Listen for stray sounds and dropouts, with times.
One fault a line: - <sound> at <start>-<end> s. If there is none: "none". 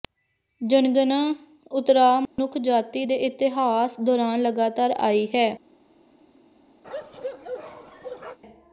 - dropout at 2.3-2.4 s
- bark at 6.8-8.4 s